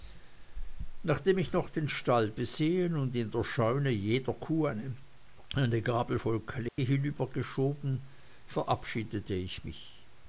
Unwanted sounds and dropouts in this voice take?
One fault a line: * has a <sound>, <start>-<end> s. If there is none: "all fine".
* has a dropout, 6.7-6.8 s